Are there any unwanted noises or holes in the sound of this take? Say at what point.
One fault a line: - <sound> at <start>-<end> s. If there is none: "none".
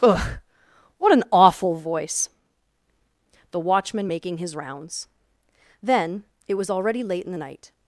none